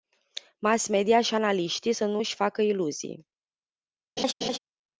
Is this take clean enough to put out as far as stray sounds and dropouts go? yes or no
no